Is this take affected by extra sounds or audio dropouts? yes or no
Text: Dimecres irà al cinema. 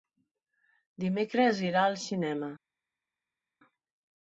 no